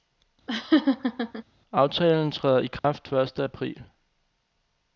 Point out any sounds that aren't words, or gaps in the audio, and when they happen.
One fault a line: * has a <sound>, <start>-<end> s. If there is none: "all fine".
* has a laugh, 0.5-1.4 s
* has a dropout, 2.8-2.8 s